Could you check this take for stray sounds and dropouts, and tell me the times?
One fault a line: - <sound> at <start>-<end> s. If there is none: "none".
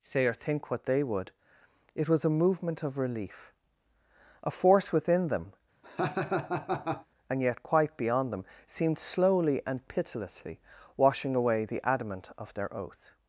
- laugh at 5.8-7.1 s